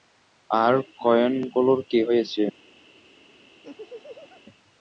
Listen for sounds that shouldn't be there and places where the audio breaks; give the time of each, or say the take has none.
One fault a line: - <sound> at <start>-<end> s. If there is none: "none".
- laugh at 3.6-4.4 s